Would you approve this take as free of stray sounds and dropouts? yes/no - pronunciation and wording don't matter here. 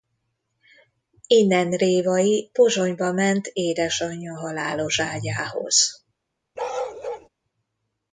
no